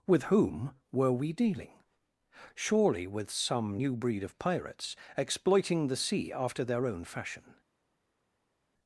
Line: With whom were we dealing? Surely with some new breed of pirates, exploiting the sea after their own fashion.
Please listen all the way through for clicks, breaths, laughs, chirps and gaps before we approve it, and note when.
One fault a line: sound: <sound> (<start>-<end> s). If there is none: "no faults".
no faults